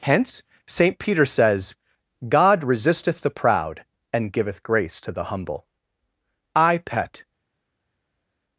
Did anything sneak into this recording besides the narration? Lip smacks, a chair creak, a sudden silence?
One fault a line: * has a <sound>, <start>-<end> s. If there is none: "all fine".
all fine